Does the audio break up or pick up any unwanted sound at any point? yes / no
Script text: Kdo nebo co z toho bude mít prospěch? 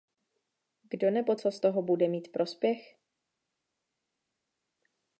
no